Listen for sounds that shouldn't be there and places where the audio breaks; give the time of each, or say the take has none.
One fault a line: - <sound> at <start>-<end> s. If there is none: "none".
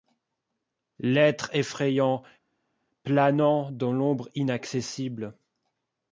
none